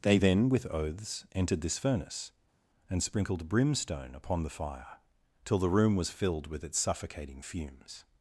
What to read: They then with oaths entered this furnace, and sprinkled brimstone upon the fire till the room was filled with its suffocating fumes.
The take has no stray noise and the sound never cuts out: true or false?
true